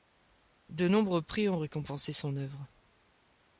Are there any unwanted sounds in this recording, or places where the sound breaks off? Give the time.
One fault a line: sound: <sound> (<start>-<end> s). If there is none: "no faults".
no faults